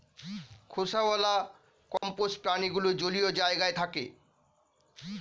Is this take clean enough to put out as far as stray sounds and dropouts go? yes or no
no